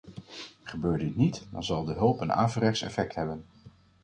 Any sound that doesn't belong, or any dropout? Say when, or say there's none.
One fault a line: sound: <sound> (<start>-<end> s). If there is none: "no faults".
no faults